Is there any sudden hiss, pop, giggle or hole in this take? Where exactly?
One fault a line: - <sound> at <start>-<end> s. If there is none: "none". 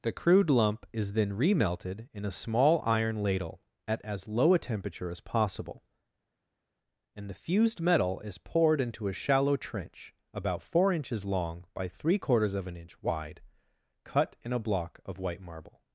none